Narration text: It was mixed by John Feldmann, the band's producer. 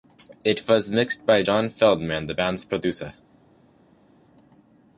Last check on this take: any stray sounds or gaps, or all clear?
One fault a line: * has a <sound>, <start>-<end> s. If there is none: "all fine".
all fine